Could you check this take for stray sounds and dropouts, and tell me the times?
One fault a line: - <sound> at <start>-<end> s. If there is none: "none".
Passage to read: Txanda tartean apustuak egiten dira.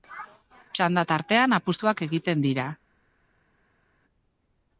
none